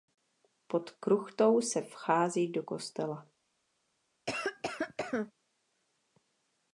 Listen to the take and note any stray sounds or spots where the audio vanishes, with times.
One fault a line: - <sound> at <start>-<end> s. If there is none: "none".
- cough at 4.3-5.3 s